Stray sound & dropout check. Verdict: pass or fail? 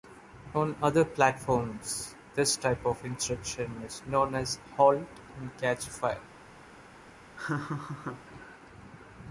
fail